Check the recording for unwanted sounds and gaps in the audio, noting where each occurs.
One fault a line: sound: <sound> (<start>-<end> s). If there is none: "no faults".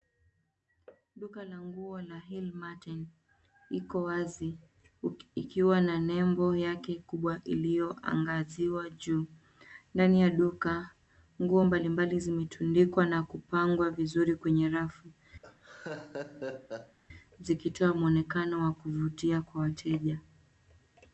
sound: laugh (15.4-17.0 s)